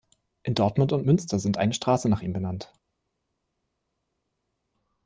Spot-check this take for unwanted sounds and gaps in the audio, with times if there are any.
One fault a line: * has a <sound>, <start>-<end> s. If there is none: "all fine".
all fine